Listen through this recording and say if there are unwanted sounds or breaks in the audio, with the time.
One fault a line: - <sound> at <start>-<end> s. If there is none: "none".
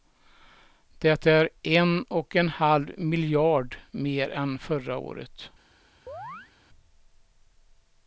- chirp at 6.1-6.5 s